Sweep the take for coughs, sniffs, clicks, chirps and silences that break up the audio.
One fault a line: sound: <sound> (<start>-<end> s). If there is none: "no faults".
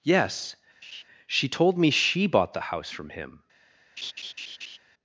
sound: laugh (0.8-1.0 s)
sound: laugh (4.0-4.8 s)